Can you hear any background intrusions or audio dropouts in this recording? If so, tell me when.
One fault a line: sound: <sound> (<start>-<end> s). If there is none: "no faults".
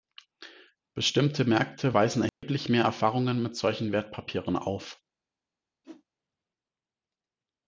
sound: dropout (2.3-2.4 s)
sound: whoosh (5.8-6.0 s)